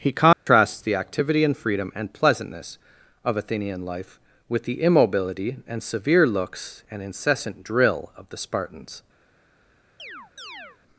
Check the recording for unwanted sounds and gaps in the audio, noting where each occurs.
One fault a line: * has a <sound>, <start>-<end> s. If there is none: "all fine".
* has a dropout, 0.3-0.5 s
* has a chirp, 10.0-10.8 s